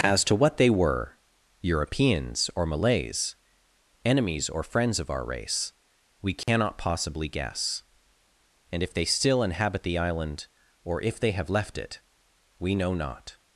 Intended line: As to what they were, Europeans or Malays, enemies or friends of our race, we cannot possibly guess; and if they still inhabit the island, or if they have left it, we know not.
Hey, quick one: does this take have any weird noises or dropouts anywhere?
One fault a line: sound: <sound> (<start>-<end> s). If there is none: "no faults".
sound: dropout (6.4-6.5 s)